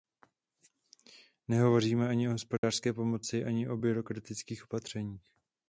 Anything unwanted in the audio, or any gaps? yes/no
yes